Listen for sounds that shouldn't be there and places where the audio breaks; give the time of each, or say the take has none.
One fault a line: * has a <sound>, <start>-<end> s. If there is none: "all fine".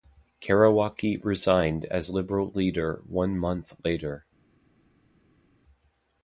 all fine